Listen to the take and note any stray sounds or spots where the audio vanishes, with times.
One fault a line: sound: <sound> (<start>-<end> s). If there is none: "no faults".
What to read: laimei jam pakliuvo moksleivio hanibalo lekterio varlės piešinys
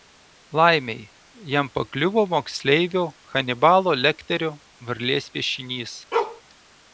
sound: bark (6.1-6.4 s)